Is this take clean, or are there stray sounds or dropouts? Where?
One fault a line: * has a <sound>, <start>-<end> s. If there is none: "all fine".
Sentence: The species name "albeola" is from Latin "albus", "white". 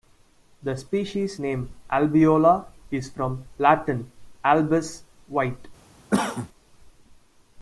* has a cough, 6.1-6.5 s